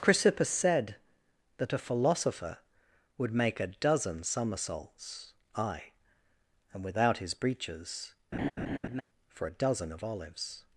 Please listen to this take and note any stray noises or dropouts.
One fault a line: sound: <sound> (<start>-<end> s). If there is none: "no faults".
sound: laugh (8.3-9.0 s)